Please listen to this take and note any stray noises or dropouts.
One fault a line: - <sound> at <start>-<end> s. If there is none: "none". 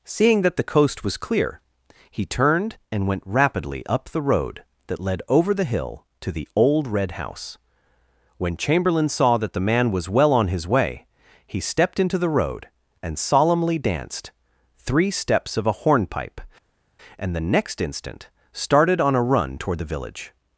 none